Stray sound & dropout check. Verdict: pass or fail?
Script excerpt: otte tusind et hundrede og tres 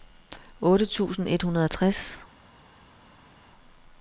pass